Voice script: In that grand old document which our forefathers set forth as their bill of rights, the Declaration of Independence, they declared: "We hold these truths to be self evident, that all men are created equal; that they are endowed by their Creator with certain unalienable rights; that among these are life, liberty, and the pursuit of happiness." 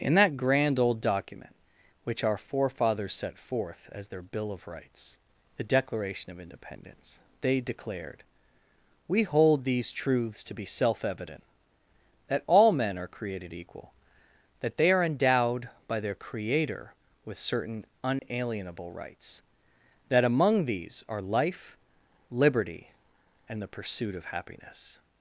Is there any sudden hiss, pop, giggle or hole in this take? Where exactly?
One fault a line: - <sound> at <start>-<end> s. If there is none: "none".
- dropout at 18.2-18.2 s